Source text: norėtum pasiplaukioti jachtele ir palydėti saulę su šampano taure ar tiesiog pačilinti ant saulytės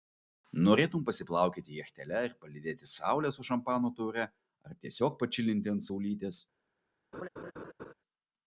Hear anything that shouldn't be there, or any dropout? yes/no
yes